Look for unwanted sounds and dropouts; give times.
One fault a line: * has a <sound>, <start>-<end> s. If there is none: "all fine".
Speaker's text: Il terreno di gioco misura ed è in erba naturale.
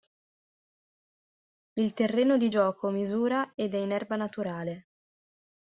all fine